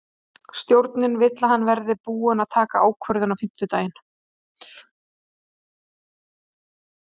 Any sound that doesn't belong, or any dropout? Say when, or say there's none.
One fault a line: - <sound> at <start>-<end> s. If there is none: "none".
none